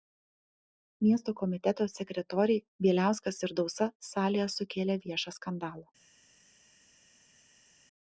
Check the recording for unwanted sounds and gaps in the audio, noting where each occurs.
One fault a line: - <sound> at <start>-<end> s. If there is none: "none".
none